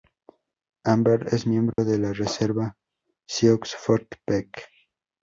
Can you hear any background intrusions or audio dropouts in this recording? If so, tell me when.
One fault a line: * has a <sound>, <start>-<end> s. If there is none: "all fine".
* has a dropout, 1.7-1.8 s